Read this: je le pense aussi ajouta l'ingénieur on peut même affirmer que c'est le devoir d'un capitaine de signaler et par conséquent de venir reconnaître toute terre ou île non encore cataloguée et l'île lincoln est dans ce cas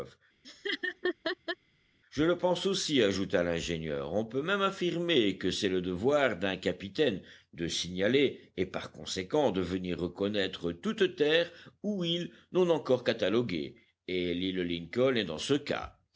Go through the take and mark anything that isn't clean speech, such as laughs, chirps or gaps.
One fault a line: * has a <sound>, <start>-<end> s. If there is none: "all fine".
* has a laugh, 0.4-1.6 s